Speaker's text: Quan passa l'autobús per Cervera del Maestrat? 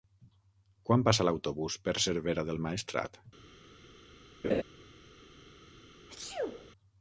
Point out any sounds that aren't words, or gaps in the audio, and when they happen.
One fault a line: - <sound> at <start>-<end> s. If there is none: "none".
- laugh at 4.4-4.6 s
- sneeze at 6.1-6.7 s